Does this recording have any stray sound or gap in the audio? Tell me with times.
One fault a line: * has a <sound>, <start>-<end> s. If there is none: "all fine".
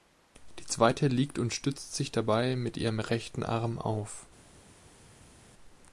all fine